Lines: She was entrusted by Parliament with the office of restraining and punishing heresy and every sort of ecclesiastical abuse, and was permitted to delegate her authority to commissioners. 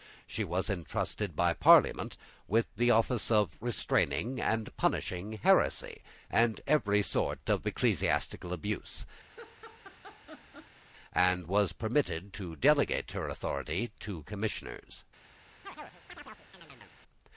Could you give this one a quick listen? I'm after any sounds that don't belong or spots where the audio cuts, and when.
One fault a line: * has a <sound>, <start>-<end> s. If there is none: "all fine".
* has a laugh, 9.3-10.8 s
* has a chirp, 15.6-17.0 s